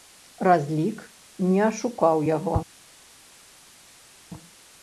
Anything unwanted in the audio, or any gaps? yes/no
no